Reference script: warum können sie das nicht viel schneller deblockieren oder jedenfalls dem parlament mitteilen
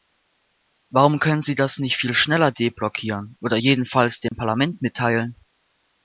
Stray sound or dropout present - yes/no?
yes